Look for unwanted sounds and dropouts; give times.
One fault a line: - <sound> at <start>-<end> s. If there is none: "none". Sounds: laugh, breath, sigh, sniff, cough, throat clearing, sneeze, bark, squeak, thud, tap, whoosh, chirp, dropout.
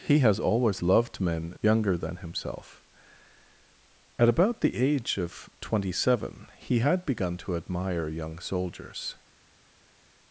none